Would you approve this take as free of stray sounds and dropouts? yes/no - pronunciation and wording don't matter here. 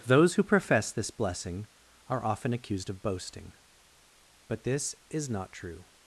yes